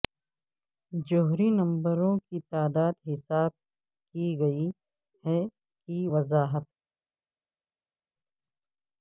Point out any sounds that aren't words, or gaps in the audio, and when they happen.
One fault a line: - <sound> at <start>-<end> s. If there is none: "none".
none